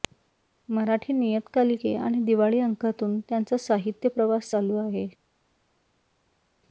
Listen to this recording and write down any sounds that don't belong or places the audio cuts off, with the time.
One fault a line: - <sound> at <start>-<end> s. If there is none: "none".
none